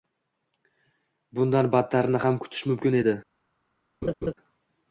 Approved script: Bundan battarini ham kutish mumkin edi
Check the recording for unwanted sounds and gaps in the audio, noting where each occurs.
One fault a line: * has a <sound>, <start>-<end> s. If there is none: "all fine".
* has a laugh, 4.0-4.3 s